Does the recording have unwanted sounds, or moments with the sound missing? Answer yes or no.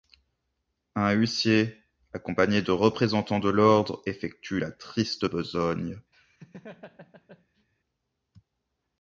yes